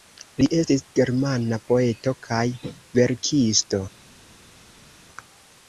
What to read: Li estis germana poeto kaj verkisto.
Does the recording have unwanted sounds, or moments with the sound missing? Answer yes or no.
no